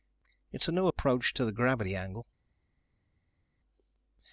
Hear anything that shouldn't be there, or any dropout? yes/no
no